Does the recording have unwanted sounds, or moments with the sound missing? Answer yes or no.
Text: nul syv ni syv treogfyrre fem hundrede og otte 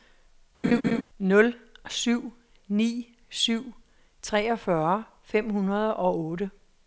yes